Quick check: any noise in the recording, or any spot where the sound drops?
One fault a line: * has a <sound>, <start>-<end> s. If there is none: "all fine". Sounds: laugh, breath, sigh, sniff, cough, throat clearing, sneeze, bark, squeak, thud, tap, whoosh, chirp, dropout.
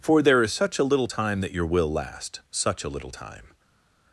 all fine